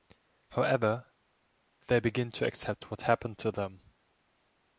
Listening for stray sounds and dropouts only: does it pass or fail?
pass